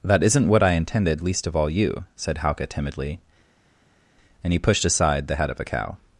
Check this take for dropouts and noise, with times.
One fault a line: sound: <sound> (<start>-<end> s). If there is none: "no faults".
no faults